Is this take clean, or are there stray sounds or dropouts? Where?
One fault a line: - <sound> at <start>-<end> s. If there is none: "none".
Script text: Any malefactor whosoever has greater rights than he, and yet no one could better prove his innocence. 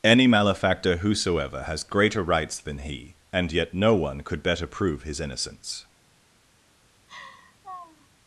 - laugh at 7.1-8.1 s